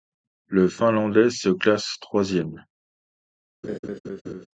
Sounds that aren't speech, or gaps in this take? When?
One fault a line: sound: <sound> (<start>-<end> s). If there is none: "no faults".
sound: laugh (3.6-4.5 s)